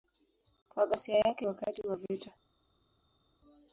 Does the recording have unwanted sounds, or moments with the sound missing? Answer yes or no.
no